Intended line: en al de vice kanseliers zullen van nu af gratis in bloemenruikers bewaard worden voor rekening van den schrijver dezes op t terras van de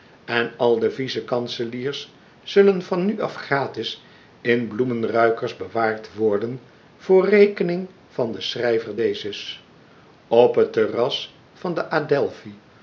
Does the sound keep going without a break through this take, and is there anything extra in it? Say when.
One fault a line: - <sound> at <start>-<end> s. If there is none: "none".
none